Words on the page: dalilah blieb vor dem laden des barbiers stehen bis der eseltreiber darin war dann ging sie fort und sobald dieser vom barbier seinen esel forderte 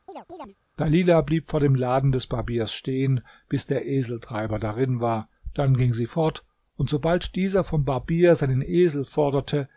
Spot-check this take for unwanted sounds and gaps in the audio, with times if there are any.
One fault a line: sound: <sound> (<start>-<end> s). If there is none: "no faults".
sound: chirp (0.1-0.6 s)